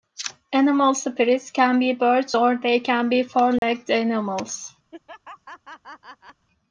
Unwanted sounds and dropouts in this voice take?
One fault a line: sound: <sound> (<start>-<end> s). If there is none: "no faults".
sound: dropout (3.6-3.6 s)
sound: laugh (4.9-6.5 s)